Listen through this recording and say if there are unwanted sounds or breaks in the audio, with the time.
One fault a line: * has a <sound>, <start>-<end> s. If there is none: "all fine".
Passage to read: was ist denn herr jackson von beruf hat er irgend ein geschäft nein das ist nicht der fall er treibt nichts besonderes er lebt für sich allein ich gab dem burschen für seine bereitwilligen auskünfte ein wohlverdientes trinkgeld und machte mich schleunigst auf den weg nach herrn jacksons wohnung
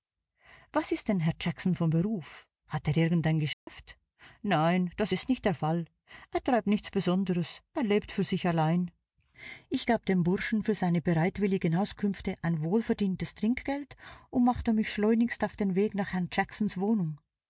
* has a dropout, 3.5-3.7 s